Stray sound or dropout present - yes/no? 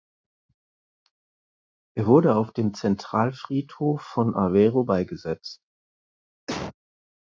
yes